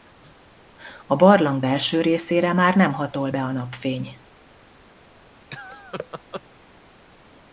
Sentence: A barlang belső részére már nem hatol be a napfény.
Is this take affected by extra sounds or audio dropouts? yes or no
yes